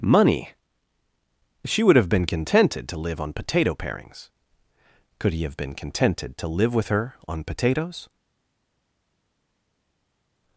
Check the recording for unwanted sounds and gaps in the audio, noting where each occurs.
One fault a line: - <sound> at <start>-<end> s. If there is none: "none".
none